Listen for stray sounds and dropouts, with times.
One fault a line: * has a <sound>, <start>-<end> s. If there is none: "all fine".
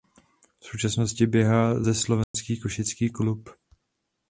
* has a dropout, 2.2-2.3 s